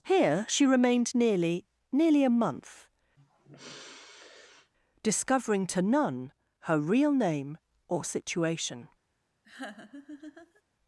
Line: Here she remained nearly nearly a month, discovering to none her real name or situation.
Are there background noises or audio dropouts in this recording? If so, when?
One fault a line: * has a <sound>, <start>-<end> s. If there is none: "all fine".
* has a sigh, 3.2-4.7 s
* has a laugh, 9.4-10.6 s